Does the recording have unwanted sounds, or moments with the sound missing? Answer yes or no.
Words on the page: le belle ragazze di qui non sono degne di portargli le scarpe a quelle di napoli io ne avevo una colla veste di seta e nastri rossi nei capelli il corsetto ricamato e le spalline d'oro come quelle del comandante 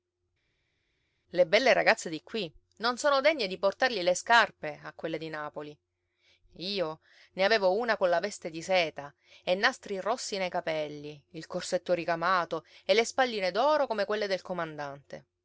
no